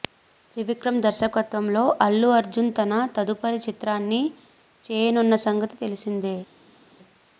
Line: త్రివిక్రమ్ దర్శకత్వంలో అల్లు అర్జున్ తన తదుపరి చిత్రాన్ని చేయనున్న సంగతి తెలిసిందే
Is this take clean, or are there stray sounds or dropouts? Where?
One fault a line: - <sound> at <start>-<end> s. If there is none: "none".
none